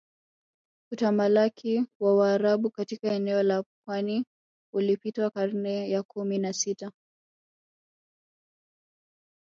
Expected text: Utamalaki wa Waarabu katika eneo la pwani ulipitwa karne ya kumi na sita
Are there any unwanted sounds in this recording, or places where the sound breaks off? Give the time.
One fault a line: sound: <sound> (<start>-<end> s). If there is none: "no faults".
no faults